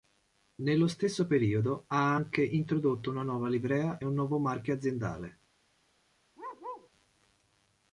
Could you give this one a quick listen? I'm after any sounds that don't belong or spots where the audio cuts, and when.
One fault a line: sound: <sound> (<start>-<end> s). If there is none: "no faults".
sound: bark (6.4-6.9 s)